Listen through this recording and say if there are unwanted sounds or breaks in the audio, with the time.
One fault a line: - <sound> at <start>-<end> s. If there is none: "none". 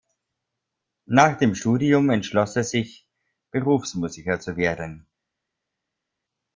none